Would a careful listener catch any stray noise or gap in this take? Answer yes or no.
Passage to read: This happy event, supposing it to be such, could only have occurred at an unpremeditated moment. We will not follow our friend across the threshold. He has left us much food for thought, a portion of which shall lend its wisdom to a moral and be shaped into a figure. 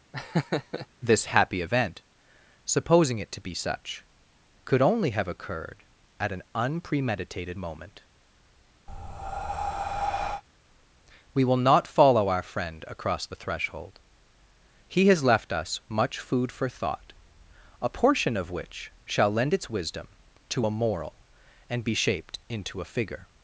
yes